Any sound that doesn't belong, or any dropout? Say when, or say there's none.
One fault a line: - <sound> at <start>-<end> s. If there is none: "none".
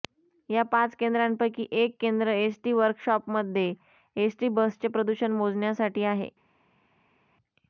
none